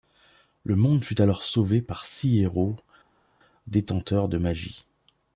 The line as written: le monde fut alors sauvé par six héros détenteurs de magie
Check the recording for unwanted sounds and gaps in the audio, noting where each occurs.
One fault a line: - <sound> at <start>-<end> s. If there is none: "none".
none